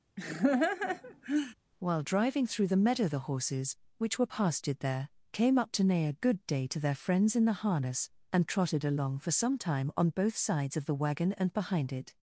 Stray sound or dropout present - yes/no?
yes